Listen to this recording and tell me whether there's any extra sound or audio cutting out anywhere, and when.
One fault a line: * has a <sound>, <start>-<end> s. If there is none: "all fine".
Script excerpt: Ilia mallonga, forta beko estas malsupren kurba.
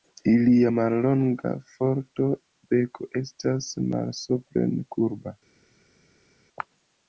all fine